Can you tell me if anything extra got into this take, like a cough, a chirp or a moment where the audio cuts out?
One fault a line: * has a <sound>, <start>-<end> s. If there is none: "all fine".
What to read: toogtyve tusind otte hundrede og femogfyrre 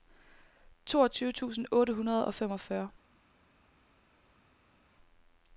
all fine